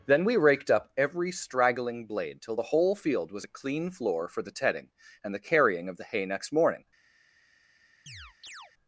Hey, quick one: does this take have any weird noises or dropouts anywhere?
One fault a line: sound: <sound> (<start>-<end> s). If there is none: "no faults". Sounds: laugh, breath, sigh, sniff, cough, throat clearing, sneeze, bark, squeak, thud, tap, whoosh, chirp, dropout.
sound: chirp (8.1-8.7 s)